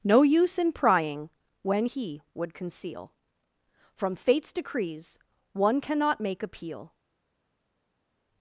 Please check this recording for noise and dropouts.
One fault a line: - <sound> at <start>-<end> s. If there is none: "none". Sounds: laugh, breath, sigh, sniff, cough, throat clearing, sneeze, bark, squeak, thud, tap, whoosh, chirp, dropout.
none